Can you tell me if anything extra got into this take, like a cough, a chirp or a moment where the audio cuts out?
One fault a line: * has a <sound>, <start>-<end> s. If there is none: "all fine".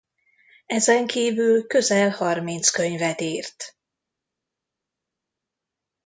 all fine